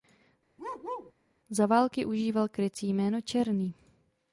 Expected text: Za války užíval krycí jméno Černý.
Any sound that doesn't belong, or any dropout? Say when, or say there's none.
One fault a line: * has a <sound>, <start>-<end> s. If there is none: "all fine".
* has a bark, 0.6-1.1 s